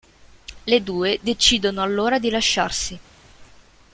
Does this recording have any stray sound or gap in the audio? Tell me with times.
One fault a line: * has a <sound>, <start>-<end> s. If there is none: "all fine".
all fine